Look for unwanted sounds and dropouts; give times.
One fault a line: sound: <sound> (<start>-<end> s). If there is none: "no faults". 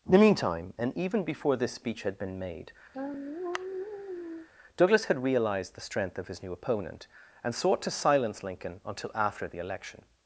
sound: sigh (2.9-4.5 s)